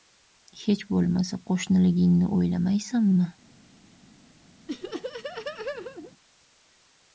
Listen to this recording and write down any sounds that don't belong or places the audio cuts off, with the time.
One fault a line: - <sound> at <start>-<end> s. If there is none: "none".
- laugh at 4.7-6.1 s